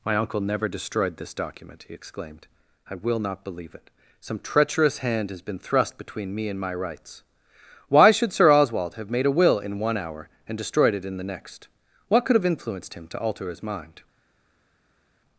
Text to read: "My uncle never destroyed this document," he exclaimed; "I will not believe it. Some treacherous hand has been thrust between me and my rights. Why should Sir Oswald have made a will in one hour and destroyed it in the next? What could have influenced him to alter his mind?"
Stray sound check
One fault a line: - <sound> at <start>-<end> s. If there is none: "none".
none